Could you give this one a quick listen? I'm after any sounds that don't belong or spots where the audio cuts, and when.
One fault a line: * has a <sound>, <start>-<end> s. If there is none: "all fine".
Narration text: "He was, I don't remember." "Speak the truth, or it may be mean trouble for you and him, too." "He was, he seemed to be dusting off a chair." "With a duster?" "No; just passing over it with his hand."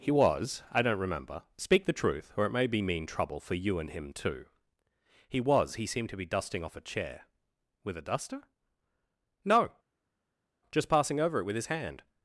all fine